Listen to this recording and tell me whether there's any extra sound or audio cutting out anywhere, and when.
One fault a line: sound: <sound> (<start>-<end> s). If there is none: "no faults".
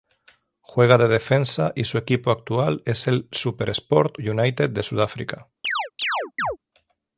sound: chirp (5.6-6.6 s)